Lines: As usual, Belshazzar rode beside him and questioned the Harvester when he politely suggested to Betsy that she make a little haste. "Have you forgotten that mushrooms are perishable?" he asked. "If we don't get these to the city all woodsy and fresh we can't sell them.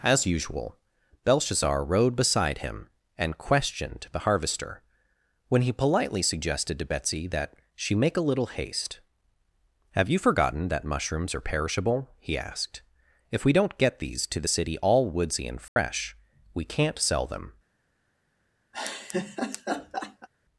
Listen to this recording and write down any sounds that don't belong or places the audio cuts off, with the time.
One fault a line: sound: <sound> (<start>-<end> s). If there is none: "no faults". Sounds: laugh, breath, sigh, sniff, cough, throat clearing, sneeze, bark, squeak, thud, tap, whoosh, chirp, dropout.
sound: dropout (15.7-15.8 s)
sound: laugh (18.7-20.3 s)